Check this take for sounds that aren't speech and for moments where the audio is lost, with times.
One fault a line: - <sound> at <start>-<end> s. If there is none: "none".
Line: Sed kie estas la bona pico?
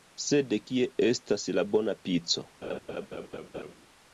- laugh at 2.6-3.7 s